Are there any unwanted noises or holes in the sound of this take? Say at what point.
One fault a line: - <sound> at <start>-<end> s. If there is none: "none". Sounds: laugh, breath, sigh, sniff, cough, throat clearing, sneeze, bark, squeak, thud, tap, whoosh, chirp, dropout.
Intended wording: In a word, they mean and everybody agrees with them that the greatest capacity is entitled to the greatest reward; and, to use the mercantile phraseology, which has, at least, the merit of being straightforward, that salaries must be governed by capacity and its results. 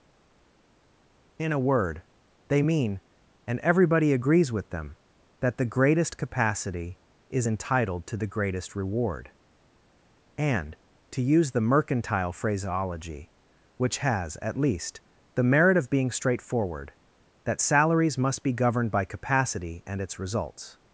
none